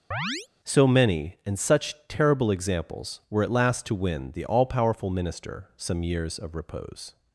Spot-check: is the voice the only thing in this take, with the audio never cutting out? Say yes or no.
no